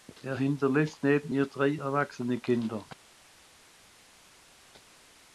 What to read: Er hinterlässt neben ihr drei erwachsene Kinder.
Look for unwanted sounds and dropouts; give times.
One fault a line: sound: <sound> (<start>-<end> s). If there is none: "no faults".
no faults